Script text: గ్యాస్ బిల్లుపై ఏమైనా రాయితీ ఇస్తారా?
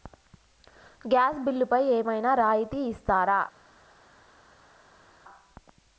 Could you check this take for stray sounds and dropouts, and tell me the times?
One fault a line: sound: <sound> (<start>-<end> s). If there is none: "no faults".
no faults